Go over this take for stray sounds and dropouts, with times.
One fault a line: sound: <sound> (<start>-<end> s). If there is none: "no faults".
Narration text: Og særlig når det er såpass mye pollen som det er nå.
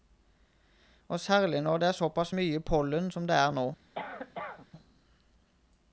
sound: cough (3.9-4.7 s)